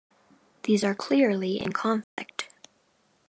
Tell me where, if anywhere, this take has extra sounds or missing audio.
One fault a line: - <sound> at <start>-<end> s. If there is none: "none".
- dropout at 2.0-2.2 s